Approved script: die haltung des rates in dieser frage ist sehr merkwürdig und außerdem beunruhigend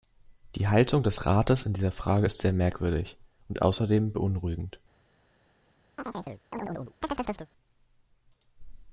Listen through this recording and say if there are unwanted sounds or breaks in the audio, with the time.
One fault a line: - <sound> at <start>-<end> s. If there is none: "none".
- chirp at 6.0-7.5 s